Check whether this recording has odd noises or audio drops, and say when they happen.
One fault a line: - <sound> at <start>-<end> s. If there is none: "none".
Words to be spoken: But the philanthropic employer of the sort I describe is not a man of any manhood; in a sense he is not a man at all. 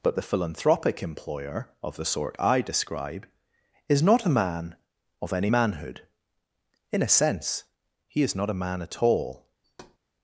- thud at 9.6-10.0 s